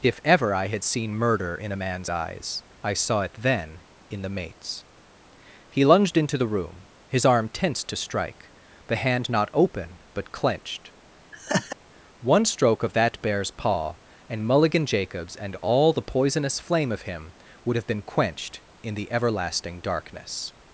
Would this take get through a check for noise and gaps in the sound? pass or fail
fail